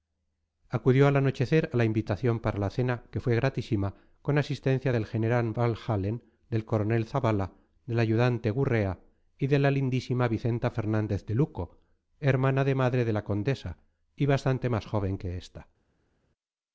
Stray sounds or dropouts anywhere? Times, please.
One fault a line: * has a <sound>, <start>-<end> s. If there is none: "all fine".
all fine